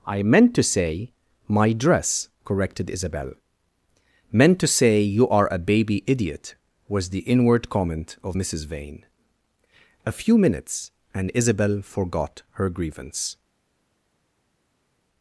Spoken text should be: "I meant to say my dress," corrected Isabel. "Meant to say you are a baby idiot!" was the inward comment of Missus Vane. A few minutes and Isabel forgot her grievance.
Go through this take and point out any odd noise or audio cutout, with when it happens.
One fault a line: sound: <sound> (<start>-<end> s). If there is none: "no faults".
no faults